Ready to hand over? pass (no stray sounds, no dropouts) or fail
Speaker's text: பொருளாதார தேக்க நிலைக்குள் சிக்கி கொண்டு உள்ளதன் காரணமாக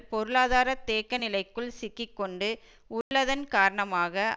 fail